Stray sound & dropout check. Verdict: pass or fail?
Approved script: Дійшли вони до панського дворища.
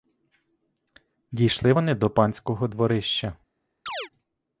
fail